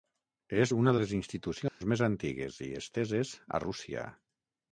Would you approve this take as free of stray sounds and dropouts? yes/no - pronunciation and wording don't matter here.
no